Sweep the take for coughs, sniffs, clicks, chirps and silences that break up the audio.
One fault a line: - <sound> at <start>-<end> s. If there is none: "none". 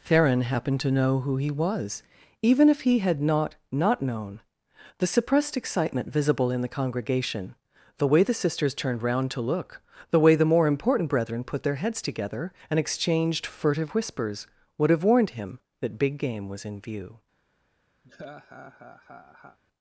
- laugh at 18.0-19.6 s